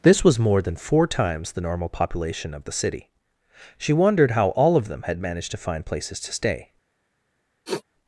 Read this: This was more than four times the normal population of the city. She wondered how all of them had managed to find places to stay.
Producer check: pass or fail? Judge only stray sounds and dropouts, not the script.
fail